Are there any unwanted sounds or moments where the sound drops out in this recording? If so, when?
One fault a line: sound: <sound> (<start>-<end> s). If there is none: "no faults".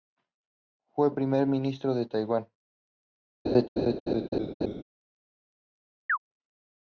sound: laugh (3.4-4.8 s)
sound: chirp (6.1-6.2 s)